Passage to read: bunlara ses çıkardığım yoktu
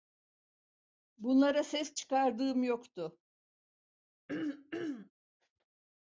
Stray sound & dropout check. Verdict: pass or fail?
fail